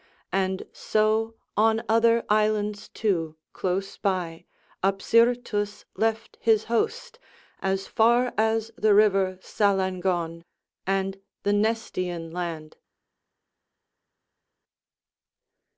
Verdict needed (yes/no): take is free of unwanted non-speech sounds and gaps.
yes